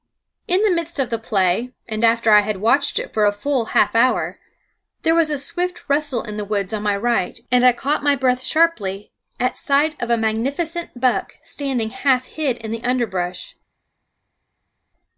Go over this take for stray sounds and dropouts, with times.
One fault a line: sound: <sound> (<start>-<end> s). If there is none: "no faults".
no faults